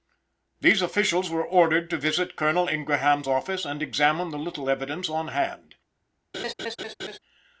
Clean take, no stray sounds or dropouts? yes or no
no